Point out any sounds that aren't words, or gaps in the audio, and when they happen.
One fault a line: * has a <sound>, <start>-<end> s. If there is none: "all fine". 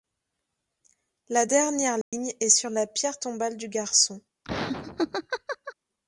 * has a dropout, 2.0-2.1 s
* has a laugh, 4.4-5.7 s